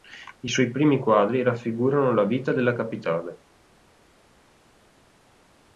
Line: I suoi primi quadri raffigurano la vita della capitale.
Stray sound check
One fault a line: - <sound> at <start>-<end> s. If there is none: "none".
none